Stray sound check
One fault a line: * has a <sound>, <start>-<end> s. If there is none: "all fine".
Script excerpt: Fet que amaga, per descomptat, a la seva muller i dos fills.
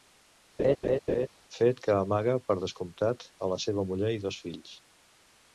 * has a laugh, 0.6-1.3 s